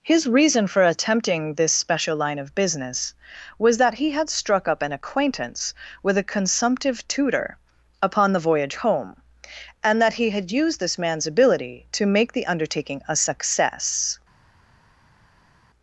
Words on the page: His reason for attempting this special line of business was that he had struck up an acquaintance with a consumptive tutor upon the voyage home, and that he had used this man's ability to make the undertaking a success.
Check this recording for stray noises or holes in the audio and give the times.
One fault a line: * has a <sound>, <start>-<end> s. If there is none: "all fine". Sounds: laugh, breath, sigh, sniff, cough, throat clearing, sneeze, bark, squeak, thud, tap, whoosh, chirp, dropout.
all fine